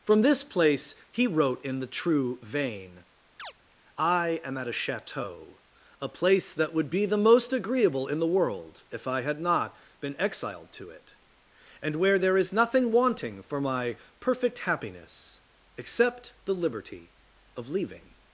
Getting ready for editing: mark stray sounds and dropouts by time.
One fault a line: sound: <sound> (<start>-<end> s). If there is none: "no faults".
sound: chirp (3.4-3.5 s)